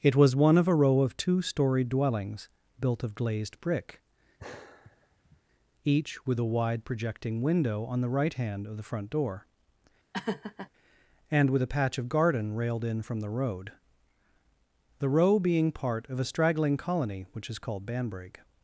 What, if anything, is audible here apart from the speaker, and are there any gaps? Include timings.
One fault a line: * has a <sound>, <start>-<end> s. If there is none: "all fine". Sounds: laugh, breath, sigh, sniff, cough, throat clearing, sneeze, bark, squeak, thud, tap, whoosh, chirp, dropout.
* has a sigh, 4.4-5.4 s
* has a laugh, 10.1-10.7 s